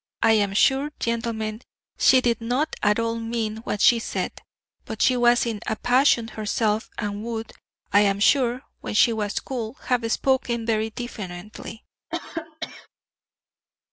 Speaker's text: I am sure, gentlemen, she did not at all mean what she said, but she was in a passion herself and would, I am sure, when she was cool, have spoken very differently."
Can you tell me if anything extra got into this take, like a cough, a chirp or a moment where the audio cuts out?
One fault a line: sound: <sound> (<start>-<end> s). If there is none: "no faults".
sound: cough (12.1-12.9 s)